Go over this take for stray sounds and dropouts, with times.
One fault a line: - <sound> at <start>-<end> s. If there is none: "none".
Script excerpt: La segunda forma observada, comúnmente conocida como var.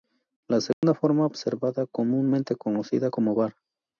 - dropout at 0.7-0.8 s